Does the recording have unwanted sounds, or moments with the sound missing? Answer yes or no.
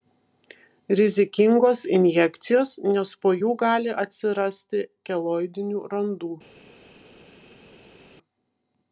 no